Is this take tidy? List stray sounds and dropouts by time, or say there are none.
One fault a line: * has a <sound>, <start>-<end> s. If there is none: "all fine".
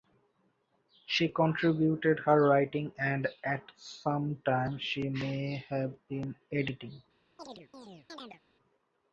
* has a chirp, 7.4-8.4 s